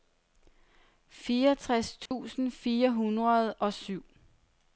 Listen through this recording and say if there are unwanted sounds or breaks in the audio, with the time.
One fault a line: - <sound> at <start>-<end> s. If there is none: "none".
- dropout at 2.1-2.1 s